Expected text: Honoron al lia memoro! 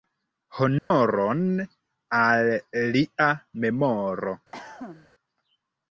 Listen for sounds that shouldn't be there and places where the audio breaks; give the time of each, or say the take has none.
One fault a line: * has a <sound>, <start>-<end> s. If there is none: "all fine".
* has a dropout, 0.8-0.9 s
* has a cough, 4.5-5.1 s